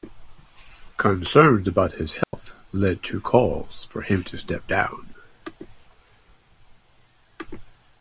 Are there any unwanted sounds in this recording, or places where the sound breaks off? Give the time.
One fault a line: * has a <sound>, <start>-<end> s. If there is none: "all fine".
* has a dropout, 2.2-2.3 s